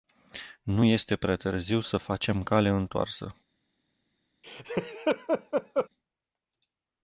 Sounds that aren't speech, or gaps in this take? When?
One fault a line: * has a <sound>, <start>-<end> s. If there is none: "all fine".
* has a laugh, 4.4-5.9 s